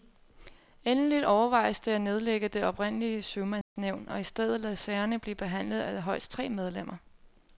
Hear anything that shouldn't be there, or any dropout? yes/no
yes